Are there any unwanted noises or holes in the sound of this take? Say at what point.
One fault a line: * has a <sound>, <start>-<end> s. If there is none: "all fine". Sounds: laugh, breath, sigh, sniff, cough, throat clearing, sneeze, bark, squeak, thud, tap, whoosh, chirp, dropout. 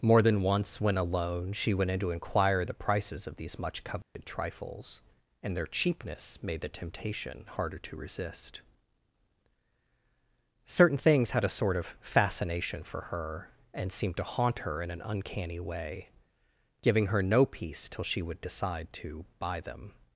* has a dropout, 4.0-4.2 s